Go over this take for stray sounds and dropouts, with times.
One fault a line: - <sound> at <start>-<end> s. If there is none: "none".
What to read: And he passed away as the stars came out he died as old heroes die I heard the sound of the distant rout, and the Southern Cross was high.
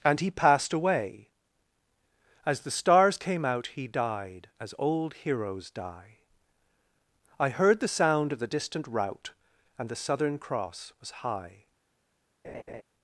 - laugh at 12.4-12.8 s